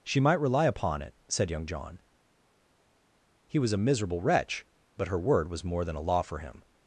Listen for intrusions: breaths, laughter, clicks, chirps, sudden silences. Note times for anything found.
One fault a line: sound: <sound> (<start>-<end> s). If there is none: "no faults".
no faults